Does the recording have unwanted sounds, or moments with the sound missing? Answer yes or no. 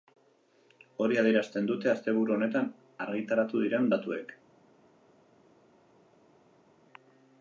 no